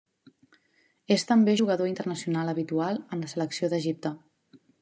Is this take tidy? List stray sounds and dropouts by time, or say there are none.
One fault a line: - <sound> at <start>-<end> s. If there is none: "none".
none